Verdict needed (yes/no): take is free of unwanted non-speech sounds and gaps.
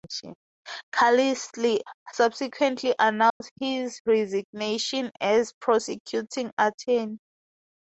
no